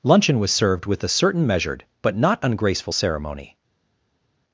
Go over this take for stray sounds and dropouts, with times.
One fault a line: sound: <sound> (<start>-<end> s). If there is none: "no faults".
no faults